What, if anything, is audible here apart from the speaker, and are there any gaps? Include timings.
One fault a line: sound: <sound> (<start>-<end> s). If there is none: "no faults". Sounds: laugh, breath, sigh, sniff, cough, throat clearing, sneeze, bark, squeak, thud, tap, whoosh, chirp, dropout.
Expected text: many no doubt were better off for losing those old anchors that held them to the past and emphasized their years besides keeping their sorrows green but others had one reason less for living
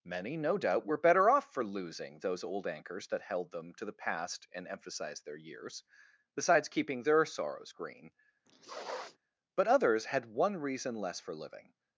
sound: sniff (8.5-9.2 s)